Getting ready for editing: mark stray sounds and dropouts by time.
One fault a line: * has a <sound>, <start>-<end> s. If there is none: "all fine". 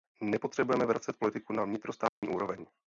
* has a dropout, 2.1-2.2 s